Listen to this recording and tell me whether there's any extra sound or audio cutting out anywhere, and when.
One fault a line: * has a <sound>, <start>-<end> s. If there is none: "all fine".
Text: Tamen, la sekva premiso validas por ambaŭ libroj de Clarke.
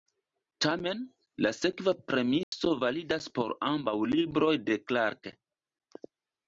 * has a dropout, 2.4-2.5 s